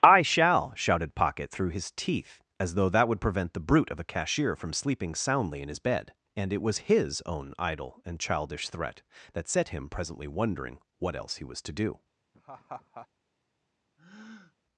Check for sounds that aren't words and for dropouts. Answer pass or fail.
fail